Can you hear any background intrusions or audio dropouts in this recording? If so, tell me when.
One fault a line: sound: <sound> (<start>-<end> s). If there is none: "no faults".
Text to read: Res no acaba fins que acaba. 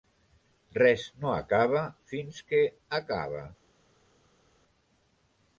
no faults